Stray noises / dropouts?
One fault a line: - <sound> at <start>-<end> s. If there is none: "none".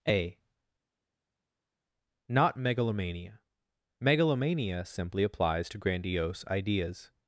none